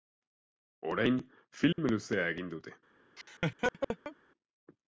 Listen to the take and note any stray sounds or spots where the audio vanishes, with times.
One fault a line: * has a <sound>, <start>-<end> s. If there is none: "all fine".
* has a dropout, 1.7-1.8 s
* has a laugh, 3.2-4.2 s